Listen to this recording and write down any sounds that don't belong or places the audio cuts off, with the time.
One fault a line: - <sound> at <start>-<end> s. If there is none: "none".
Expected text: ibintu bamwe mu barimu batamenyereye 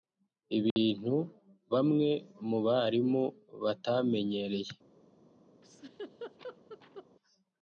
- dropout at 0.7-0.8 s
- laugh at 5.6-7.1 s